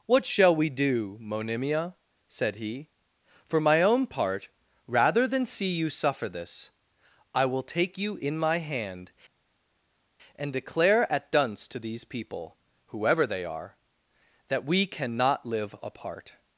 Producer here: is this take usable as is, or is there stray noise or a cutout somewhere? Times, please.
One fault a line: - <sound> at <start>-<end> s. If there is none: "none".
none